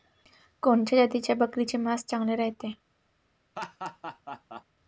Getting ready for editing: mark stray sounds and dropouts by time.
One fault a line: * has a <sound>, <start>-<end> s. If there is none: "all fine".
* has a laugh, 3.6-4.6 s